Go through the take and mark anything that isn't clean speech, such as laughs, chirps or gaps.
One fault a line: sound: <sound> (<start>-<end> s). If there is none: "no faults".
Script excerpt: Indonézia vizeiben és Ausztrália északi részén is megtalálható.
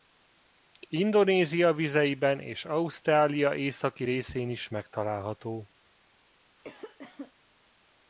sound: cough (6.6-7.3 s)